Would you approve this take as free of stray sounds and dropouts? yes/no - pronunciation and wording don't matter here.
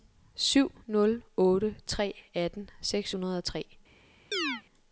no